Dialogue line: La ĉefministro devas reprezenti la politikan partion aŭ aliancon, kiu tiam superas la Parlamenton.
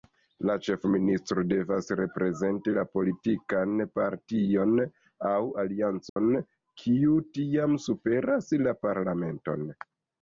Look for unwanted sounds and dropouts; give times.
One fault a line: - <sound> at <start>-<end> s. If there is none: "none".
- dropout at 6.1-6.2 s